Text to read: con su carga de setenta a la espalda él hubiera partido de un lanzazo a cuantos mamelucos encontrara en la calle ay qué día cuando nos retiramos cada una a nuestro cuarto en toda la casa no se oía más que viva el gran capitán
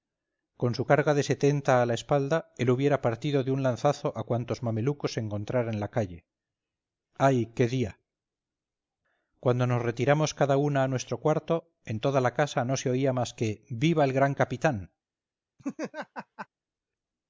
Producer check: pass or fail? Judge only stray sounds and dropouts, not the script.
fail